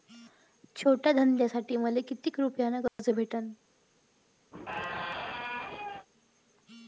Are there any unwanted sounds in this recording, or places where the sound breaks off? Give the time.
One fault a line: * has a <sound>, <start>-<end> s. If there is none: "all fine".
* has a dropout, 2.9-3.0 s
* has a squeak, 4.5-6.1 s